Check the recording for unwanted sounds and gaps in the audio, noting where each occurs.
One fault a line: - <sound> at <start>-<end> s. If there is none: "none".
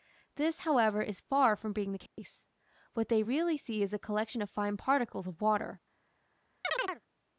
- dropout at 2.1-2.2 s
- chirp at 6.6-7.0 s